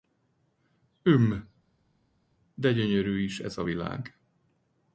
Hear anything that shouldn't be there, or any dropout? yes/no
no